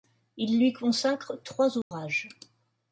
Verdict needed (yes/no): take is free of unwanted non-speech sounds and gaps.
no